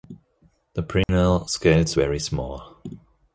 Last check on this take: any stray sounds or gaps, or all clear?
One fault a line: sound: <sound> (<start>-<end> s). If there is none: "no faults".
sound: dropout (1.0-1.1 s)